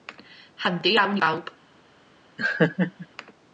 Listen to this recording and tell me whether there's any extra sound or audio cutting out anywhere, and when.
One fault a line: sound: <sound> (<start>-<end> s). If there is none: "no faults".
sound: laugh (2.4-3.1 s)